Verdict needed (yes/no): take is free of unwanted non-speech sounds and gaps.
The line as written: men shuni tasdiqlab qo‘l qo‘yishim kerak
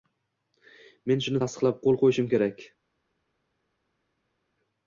yes